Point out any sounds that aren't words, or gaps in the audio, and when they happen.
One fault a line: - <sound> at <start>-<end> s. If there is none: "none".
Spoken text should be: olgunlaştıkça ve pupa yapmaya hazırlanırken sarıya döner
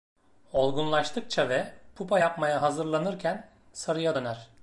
none